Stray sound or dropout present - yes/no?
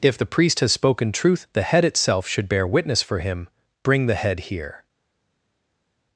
no